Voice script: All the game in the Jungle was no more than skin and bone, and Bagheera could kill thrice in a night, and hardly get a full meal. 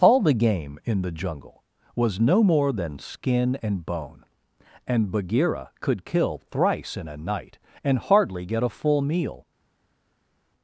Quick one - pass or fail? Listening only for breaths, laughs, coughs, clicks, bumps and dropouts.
pass